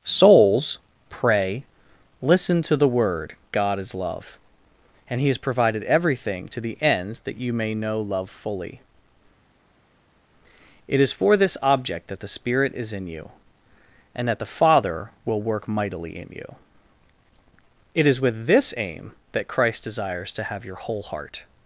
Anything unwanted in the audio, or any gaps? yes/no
no